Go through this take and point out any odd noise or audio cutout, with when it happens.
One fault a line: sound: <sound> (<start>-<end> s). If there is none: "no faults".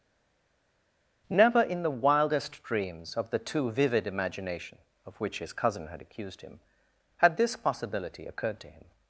no faults